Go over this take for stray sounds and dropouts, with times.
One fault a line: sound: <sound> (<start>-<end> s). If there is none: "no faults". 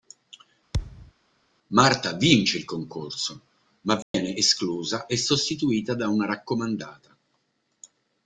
sound: thud (0.7-1.1 s)
sound: dropout (4.0-4.1 s)